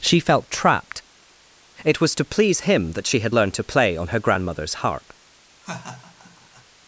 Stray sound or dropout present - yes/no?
yes